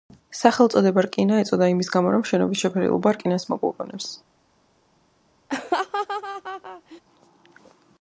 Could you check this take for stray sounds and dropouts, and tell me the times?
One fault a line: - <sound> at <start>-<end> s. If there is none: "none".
- laugh at 5.5-7.0 s